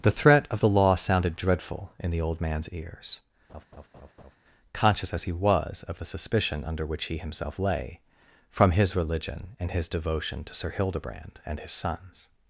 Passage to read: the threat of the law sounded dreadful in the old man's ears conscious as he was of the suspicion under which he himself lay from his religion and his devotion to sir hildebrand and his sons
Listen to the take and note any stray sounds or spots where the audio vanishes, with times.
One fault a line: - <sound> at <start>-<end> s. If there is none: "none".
- laugh at 3.5-4.4 s